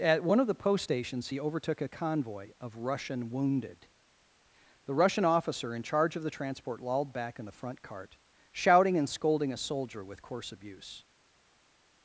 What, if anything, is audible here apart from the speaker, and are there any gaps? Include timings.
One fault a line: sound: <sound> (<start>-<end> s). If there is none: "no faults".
no faults